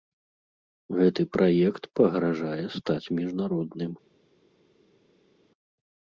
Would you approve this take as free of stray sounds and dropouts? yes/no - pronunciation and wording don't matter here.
yes